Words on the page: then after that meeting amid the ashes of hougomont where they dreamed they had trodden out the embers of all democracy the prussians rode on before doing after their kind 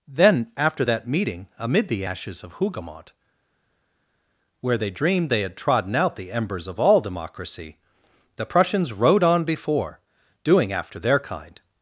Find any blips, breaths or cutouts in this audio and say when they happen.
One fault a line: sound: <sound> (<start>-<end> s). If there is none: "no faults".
no faults